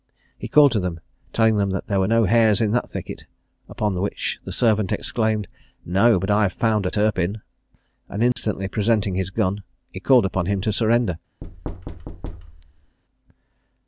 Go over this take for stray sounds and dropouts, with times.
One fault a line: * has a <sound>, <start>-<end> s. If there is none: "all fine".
* has a dropout, 8.3-8.4 s
* has a thud, 11.4-13.0 s